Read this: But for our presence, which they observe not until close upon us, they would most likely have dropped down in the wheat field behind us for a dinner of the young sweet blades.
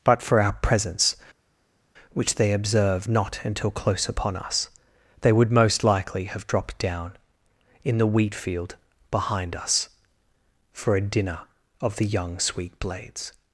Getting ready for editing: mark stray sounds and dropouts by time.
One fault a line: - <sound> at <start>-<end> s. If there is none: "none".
none